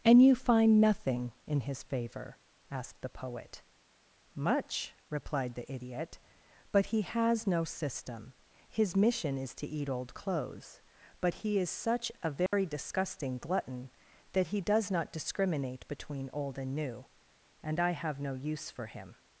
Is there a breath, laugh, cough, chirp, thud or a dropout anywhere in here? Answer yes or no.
yes